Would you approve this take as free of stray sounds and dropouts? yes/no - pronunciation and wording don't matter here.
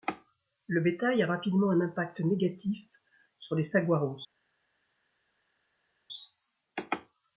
yes